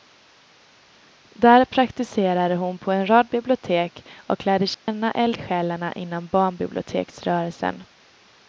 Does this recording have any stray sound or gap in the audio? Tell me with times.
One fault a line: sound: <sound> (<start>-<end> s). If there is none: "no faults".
sound: dropout (4.7-4.9 s)